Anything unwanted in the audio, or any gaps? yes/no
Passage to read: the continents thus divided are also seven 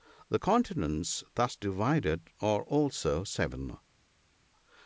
no